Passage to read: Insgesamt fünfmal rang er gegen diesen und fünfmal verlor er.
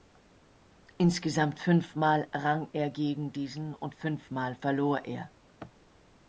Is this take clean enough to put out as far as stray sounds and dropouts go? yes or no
yes